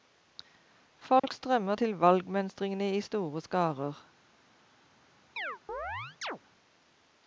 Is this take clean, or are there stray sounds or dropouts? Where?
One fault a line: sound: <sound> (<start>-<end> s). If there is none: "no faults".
sound: dropout (1.2-1.2 s)
sound: chirp (5.4-6.4 s)